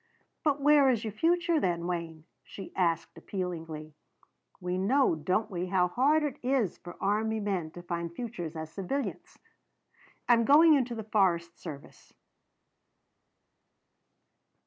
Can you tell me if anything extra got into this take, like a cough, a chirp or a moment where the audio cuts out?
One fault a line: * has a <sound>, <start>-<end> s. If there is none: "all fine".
all fine